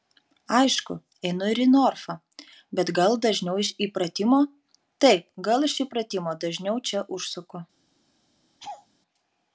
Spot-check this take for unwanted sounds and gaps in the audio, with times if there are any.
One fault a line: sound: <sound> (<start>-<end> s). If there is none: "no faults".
sound: laugh (8.6-8.9 s)